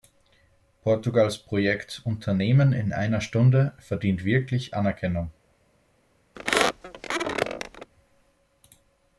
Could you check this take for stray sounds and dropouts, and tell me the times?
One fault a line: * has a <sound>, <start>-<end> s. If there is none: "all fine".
* has a squeak, 6.4-7.9 s